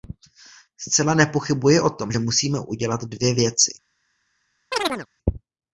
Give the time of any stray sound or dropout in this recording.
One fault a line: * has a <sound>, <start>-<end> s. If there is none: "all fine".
* has a chirp, 4.7-5.1 s